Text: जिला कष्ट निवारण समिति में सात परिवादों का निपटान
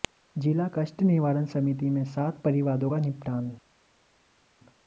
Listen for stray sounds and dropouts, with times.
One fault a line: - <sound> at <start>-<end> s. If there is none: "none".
none